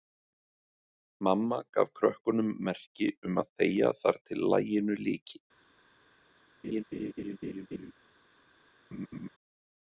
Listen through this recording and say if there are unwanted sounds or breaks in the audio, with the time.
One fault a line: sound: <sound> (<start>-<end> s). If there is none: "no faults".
sound: laugh (6.6-7.9 s)
sound: laugh (8.9-9.3 s)